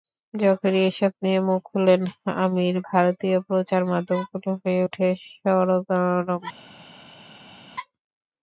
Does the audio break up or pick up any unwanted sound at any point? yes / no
no